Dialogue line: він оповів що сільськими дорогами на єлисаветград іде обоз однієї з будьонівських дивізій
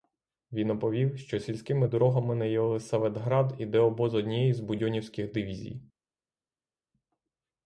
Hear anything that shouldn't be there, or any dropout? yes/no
no